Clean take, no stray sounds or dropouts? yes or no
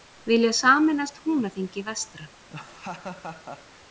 no